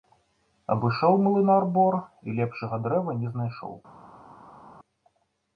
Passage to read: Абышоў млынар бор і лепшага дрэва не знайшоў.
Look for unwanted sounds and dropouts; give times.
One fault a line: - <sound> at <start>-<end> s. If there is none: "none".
none